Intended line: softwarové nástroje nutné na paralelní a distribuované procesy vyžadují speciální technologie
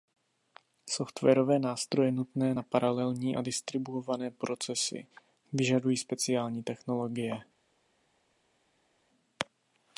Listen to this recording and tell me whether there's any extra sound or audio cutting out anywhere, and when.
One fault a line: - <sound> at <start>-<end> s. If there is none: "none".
none